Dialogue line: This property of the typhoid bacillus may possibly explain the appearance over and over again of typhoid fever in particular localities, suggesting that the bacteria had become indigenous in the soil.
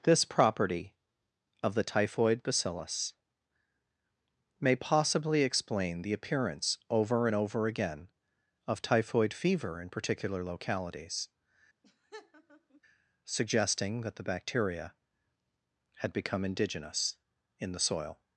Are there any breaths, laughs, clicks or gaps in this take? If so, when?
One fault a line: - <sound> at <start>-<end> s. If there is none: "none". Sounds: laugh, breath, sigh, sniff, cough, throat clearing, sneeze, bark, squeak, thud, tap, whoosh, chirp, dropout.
- laugh at 11.8-12.8 s